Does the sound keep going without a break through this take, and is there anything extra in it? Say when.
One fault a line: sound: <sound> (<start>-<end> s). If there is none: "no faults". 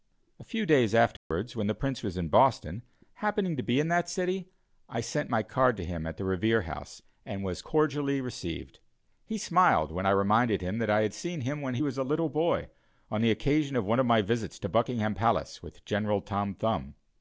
sound: dropout (1.2-1.3 s)